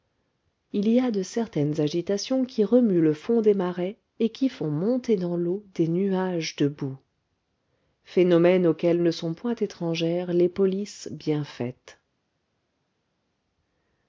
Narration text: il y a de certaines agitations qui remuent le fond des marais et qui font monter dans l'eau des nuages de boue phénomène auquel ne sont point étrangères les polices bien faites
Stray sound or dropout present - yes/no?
no